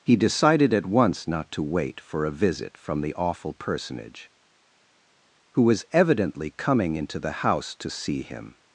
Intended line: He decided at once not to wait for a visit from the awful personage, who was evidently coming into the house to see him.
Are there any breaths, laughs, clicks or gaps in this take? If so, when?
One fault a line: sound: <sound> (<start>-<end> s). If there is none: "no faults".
no faults